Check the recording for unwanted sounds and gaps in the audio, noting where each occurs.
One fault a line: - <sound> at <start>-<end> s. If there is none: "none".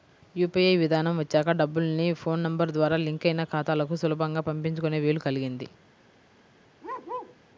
- bark at 6.8-7.4 s